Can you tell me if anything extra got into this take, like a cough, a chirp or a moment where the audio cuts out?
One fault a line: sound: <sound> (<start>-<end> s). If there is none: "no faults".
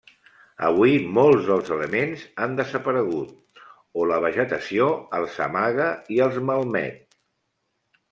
no faults